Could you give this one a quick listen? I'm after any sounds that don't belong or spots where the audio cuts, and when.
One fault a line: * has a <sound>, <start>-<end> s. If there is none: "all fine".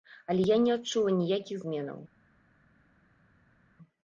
all fine